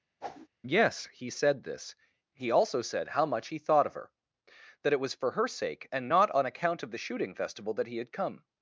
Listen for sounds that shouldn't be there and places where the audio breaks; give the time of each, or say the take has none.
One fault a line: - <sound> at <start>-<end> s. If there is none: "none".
- whoosh at 0.2-0.5 s